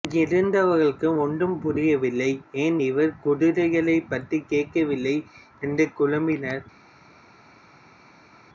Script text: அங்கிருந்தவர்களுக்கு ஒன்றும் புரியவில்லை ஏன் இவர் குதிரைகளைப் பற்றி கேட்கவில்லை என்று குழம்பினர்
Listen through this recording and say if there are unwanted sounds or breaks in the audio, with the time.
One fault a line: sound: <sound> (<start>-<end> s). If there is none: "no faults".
no faults